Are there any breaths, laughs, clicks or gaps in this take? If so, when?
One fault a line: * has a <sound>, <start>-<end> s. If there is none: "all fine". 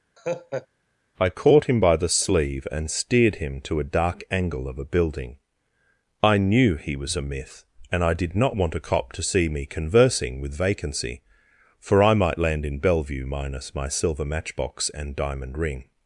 * has a laugh, 0.2-0.7 s